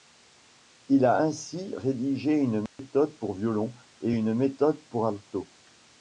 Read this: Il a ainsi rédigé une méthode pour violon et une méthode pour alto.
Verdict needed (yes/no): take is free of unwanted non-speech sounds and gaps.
no